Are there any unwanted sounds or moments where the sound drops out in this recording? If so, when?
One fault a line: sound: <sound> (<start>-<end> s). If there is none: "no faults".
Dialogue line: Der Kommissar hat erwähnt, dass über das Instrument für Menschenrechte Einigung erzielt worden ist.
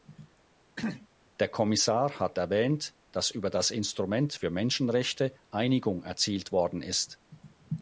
sound: throat clearing (0.8-1.1 s)